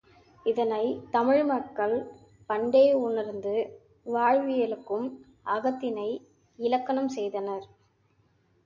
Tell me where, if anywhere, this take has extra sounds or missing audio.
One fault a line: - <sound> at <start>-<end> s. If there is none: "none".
none